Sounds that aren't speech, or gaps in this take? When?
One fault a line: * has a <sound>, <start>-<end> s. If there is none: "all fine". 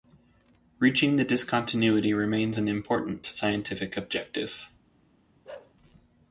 * has a bark, 5.4-5.7 s